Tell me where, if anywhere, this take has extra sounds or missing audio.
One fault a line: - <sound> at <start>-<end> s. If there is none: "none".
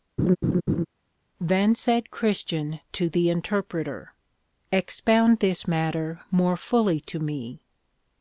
- laugh at 0.2-0.9 s